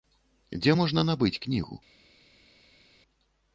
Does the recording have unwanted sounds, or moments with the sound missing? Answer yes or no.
no